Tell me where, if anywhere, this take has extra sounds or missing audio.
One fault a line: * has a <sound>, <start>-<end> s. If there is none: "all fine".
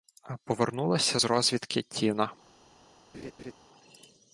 * has a laugh, 3.1-3.5 s